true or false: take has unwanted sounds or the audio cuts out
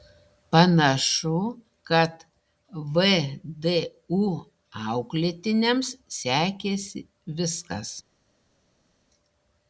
false